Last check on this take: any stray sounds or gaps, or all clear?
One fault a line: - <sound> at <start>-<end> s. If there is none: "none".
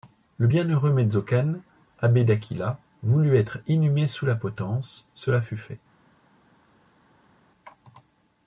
none